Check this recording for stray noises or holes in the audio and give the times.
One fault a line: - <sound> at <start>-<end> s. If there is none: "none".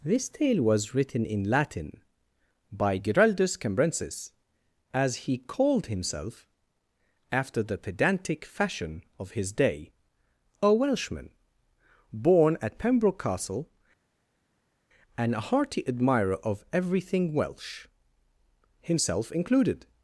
none